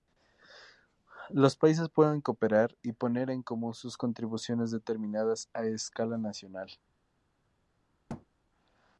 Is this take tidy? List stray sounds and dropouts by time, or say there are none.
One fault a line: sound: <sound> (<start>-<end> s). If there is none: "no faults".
sound: thud (8.1-8.3 s)